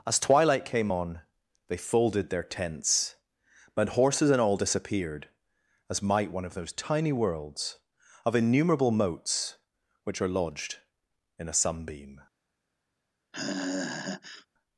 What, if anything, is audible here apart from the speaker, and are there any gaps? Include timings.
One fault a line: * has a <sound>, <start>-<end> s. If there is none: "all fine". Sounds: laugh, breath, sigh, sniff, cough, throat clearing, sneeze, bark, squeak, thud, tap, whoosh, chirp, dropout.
* has a sigh, 13.3-14.5 s